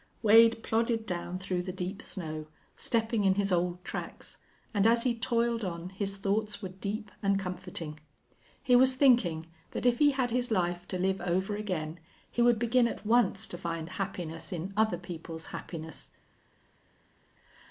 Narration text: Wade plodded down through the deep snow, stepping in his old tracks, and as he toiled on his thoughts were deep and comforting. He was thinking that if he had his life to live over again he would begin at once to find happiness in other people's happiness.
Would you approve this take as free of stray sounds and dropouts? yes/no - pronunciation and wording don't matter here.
yes